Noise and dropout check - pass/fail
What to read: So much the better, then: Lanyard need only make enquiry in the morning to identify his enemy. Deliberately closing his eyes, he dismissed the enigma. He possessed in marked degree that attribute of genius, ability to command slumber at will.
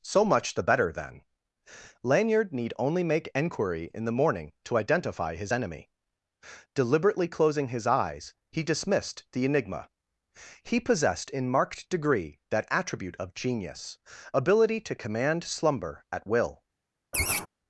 fail